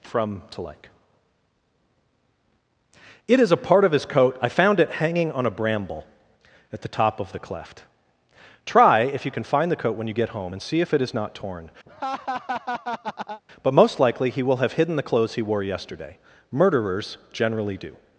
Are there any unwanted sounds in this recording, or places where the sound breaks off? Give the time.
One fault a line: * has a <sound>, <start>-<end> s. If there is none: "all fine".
* has a laugh, 11.9-13.4 s